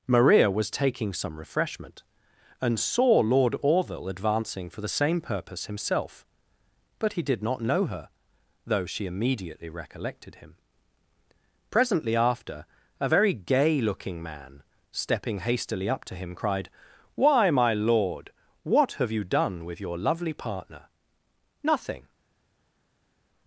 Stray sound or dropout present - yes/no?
no